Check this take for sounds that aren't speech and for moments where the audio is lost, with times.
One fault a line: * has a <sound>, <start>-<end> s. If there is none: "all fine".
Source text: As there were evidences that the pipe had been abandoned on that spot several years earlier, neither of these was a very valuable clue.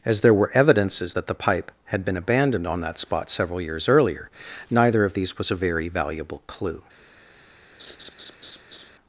* has a laugh, 7.8-8.9 s